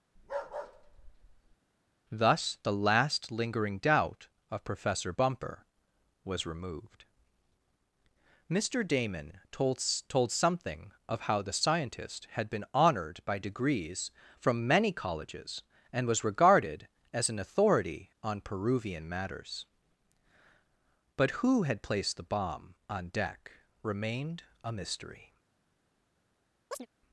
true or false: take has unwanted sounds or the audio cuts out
true